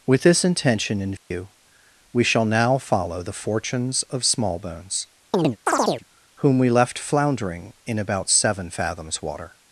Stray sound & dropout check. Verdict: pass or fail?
fail